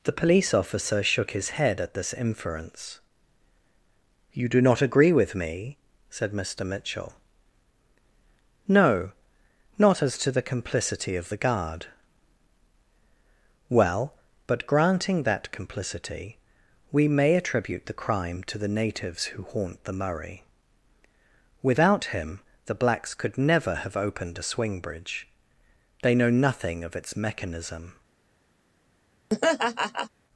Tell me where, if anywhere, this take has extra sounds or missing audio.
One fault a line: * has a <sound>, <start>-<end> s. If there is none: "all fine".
* has a laugh, 29.3-30.1 s